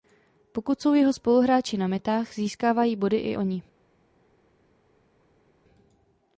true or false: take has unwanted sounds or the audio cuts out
false